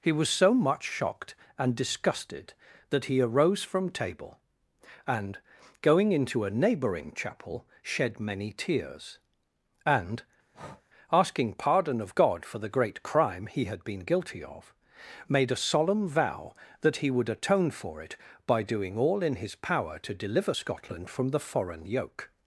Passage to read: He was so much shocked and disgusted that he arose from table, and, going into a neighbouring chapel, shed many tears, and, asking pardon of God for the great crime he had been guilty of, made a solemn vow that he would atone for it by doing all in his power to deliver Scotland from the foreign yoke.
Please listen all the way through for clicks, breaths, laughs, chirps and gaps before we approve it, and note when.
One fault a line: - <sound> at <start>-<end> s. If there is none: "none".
- breath at 10.5-10.8 s